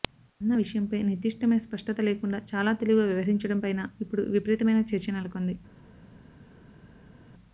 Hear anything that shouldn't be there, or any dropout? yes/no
no